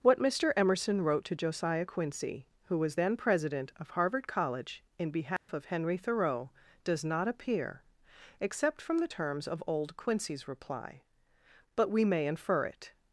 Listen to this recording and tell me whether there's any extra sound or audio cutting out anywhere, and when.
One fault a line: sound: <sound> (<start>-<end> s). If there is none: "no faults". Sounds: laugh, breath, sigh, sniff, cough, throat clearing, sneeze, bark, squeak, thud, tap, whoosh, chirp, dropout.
sound: dropout (5.4-5.5 s)